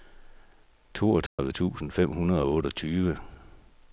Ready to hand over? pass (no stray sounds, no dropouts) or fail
fail